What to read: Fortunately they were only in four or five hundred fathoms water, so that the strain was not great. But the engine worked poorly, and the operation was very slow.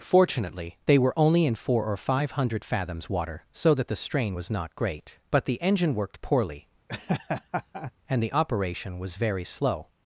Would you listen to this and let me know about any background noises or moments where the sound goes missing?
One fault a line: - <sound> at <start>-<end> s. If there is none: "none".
- laugh at 6.9-7.9 s